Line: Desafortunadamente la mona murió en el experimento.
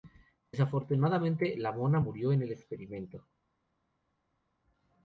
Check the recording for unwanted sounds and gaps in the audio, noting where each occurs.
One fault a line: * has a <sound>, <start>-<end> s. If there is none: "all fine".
all fine